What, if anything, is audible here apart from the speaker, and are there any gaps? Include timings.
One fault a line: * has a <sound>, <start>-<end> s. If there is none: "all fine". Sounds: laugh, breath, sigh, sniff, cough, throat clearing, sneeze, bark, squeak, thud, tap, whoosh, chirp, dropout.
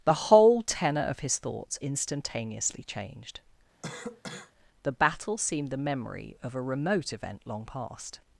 * has a cough, 3.8-4.5 s